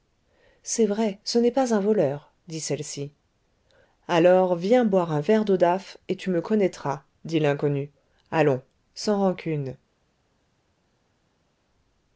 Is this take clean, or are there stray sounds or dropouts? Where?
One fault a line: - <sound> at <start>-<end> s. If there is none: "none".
none